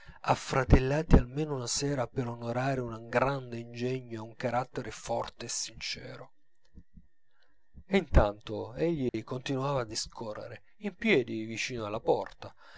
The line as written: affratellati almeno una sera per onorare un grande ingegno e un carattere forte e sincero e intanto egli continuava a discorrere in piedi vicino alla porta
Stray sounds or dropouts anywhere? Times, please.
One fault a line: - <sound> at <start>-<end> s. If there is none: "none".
- dropout at 9.1-9.1 s